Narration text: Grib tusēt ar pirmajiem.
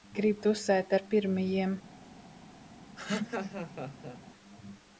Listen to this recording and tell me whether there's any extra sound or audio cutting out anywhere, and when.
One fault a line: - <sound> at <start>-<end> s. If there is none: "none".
- laugh at 3.0-4.2 s